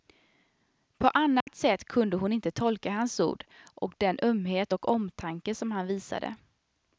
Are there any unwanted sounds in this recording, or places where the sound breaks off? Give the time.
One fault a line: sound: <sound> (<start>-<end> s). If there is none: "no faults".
sound: dropout (1.4-1.5 s)